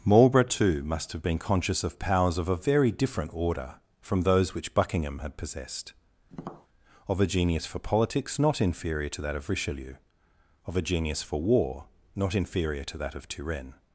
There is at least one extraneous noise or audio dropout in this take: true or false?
true